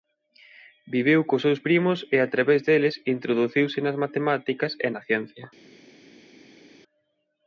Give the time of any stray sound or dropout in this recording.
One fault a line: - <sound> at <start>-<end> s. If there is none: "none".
none